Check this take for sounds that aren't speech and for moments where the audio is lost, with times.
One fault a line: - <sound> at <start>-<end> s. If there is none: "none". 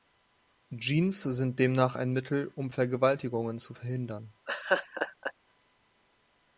- laugh at 4.5-5.3 s